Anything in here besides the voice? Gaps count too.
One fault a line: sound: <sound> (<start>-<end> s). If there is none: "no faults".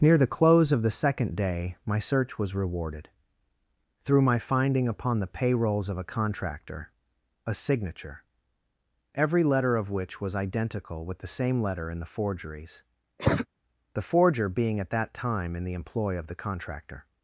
sound: cough (13.2-13.5 s)